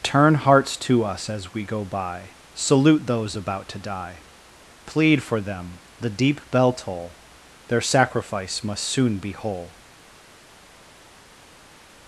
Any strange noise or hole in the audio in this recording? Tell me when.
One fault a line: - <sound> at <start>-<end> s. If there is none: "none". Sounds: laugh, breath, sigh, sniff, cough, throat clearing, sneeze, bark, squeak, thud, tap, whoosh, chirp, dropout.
none